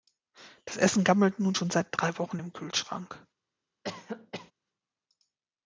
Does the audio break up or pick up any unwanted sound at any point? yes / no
yes